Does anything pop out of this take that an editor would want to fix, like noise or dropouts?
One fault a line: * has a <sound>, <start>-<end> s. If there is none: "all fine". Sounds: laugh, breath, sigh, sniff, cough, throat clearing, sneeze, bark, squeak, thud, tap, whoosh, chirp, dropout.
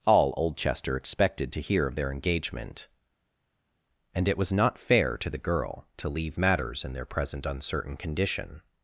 all fine